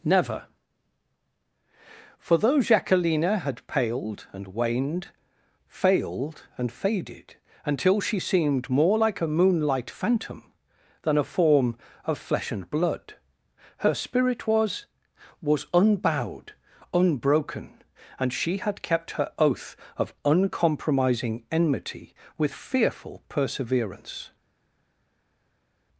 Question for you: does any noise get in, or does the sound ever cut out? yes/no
no